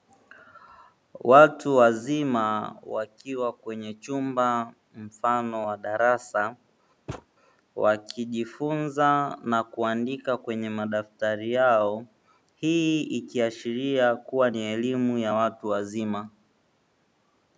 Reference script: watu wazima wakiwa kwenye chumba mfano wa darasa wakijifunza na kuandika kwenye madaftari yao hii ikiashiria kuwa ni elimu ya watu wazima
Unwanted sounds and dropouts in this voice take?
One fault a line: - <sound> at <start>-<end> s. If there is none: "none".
- thud at 7.1-7.3 s